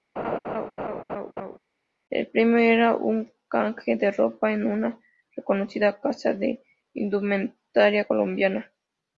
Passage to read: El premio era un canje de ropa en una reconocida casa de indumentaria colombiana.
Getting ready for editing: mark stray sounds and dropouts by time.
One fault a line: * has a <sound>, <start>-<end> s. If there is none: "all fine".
* has a laugh, 0.2-1.6 s